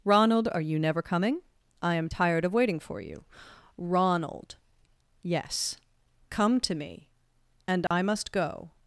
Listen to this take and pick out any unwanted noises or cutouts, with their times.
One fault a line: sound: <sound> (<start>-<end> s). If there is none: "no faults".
sound: dropout (7.9-7.9 s)